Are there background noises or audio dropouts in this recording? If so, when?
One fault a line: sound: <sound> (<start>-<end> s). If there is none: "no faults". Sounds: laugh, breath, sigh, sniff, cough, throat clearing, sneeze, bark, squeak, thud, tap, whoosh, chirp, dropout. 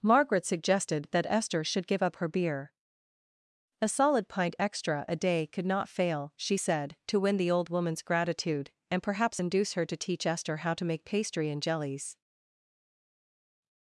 no faults